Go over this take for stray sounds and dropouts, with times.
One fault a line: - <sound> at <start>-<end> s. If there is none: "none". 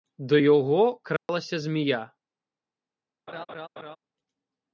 - dropout at 1.2-1.3 s
- laugh at 3.3-4.0 s